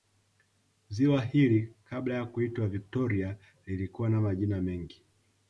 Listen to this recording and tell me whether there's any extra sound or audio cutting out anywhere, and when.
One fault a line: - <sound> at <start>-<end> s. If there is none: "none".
none